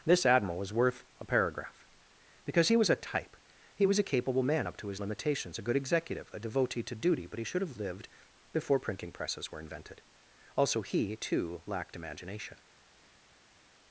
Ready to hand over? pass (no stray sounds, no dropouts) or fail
pass